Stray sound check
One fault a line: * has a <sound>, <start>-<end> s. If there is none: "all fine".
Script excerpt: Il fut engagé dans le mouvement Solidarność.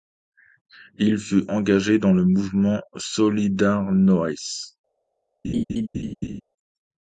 * has a laugh, 5.4-6.4 s